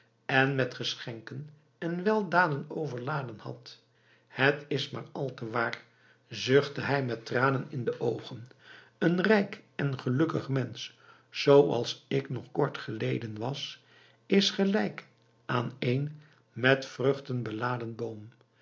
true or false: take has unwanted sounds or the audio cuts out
false